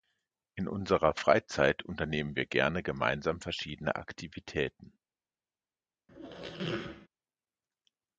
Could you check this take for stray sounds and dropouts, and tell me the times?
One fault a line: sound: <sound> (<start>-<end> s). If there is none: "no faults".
sound: squeak (6.1-7.1 s)